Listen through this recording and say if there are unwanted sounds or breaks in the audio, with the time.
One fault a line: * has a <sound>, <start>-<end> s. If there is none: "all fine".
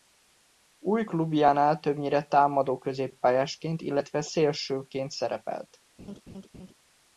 * has a laugh, 6.0-6.7 s